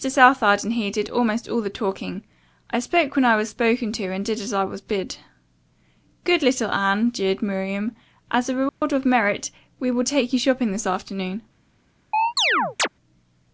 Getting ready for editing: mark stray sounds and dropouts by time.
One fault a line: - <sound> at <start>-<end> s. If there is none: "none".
- dropout at 8.7-8.8 s
- chirp at 12.1-12.9 s